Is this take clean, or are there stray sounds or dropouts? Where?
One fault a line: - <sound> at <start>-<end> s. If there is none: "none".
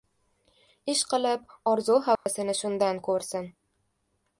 - dropout at 2.2-2.3 s